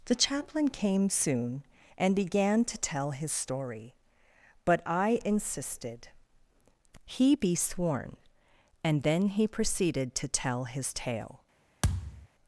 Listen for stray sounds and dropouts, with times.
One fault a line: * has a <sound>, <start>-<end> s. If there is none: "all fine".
* has a thud, 11.8-12.3 s